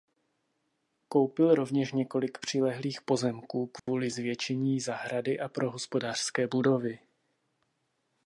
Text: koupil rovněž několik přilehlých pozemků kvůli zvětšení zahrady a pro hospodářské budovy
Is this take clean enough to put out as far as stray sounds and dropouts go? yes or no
no